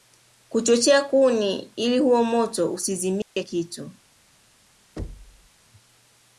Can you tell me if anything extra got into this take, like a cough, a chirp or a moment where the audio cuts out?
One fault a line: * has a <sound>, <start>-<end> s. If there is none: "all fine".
* has a dropout, 3.2-3.4 s
* has a thud, 5.0-5.5 s